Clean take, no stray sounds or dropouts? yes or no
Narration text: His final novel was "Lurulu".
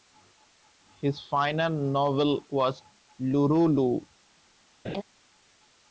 no